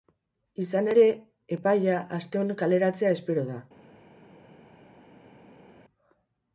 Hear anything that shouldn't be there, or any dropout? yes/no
no